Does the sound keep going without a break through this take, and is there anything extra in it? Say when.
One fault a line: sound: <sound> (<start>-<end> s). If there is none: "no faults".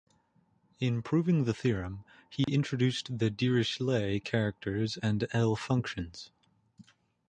sound: dropout (2.4-2.5 s)